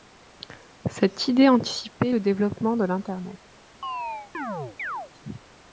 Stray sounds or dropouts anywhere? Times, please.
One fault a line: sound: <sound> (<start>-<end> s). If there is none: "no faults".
sound: chirp (3.8-5.1 s)